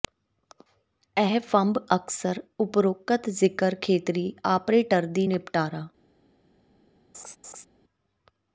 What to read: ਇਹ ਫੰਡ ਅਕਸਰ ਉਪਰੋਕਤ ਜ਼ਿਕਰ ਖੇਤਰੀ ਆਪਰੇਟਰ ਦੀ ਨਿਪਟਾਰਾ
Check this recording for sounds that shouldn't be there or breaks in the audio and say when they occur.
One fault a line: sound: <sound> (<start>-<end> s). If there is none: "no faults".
sound: laugh (7.1-7.7 s)